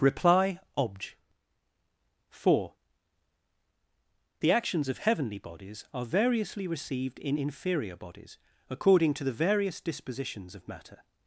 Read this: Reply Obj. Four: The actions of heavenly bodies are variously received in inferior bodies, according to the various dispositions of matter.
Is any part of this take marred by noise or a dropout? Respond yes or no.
no